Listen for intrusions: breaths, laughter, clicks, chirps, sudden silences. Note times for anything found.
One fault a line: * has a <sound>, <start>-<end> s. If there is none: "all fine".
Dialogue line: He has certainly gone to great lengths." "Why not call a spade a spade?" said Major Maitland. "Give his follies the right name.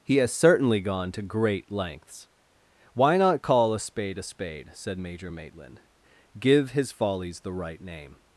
all fine